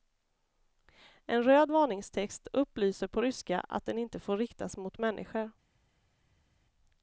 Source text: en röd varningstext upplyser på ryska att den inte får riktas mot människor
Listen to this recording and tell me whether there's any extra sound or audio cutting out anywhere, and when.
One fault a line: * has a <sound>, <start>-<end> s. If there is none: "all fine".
all fine